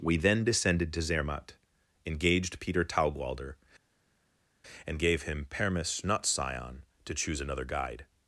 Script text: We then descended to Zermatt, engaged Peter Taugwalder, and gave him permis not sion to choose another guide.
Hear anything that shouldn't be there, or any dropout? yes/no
no